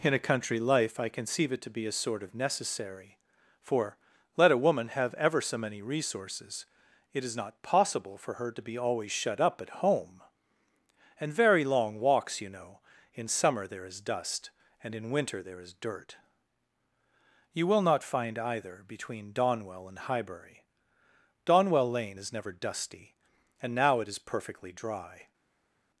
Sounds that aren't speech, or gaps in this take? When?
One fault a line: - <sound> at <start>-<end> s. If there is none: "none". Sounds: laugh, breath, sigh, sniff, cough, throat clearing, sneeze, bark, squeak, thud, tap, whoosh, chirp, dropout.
none